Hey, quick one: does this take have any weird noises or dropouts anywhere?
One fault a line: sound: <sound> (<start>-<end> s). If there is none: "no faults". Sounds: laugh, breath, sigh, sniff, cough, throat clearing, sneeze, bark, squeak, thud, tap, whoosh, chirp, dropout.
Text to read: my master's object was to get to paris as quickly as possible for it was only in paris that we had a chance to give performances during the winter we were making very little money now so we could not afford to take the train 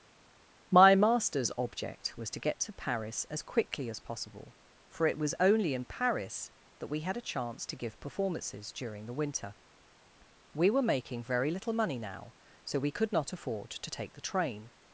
no faults